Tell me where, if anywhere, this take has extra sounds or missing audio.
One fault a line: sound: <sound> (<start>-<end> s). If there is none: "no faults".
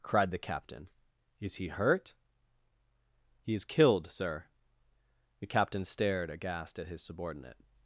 no faults